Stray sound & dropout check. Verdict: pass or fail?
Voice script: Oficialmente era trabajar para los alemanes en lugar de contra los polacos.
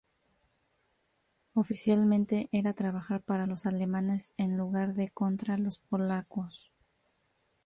pass